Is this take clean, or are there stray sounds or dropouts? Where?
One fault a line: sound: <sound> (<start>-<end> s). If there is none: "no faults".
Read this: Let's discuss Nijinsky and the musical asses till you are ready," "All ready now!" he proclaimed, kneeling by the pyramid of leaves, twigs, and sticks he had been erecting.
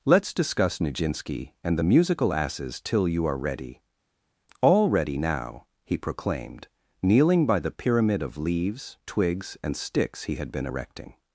no faults